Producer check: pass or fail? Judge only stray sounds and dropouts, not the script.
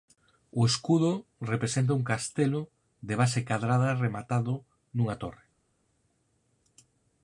pass